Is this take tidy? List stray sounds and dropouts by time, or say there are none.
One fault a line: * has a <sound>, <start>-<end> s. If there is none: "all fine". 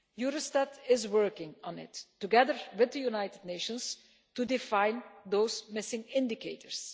all fine